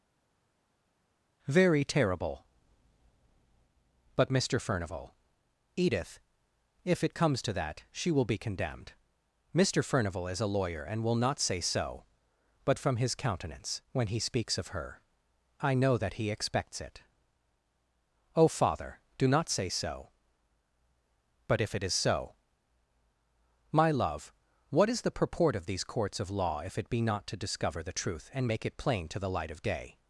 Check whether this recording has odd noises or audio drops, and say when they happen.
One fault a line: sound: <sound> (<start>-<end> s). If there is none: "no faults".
no faults